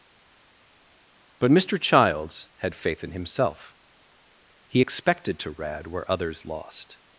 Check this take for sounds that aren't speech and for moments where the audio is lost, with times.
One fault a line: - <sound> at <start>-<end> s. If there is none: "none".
none